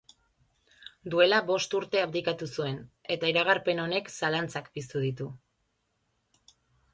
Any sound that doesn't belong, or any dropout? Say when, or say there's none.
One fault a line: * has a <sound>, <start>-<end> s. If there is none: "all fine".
all fine